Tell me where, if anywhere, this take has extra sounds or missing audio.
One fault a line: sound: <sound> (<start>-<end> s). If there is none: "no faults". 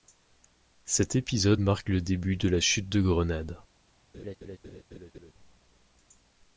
sound: laugh (4.1-5.3 s)